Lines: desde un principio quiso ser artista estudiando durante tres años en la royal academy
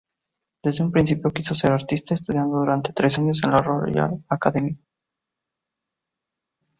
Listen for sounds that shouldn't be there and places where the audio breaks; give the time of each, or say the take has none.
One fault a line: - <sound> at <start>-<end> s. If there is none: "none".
none